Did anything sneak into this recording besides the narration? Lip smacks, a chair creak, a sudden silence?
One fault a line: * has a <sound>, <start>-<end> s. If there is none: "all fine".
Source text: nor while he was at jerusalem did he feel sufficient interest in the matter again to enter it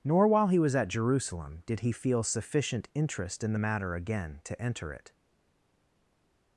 all fine